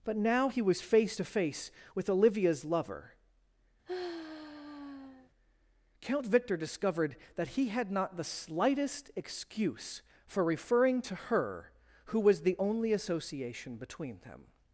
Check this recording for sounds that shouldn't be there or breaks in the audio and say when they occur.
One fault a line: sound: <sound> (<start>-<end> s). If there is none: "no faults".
sound: sigh (3.9-5.3 s)